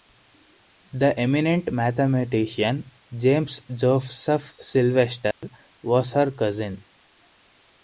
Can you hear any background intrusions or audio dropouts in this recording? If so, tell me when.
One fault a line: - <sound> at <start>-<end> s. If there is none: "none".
- dropout at 5.3-5.4 s